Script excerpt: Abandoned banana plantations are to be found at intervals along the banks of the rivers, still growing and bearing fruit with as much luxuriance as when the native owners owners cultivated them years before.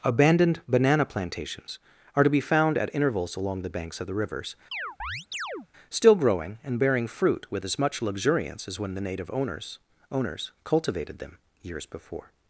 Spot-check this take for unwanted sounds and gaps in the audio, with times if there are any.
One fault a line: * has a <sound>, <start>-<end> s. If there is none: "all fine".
* has a chirp, 4.7-5.7 s